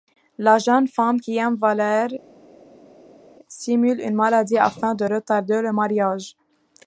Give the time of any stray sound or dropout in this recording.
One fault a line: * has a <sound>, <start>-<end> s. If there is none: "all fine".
all fine